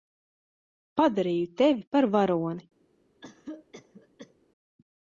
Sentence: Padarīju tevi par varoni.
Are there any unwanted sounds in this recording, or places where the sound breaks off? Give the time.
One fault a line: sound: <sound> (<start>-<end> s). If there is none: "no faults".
sound: cough (3.2-4.3 s)